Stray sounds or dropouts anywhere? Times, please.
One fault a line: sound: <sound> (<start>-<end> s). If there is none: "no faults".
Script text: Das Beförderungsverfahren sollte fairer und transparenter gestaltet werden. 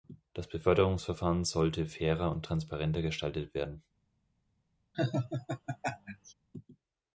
sound: laugh (4.9-6.3 s)